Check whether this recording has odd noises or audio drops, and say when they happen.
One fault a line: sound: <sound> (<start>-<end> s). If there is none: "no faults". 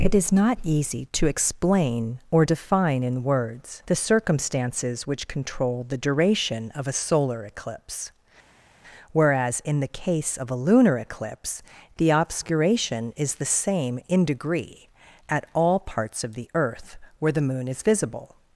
no faults